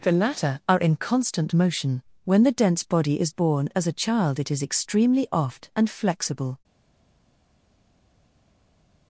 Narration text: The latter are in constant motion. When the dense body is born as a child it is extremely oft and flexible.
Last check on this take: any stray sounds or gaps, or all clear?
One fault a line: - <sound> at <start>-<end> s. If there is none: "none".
none